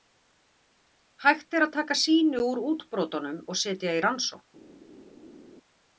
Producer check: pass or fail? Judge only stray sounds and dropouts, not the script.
pass